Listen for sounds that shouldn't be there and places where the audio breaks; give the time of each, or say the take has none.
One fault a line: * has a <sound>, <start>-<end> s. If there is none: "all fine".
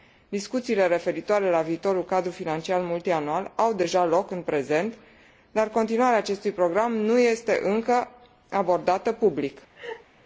* has a laugh, 9.7-10.0 s